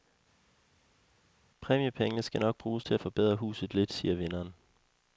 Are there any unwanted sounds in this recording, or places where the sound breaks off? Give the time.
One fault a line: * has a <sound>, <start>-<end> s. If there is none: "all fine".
all fine